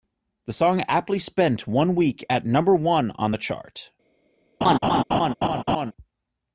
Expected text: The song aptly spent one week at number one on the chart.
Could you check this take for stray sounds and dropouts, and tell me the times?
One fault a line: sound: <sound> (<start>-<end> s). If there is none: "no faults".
sound: laugh (4.6-5.9 s)